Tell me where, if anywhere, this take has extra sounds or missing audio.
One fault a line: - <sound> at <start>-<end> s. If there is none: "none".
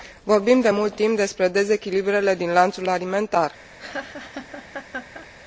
- laugh at 3.8-5.3 s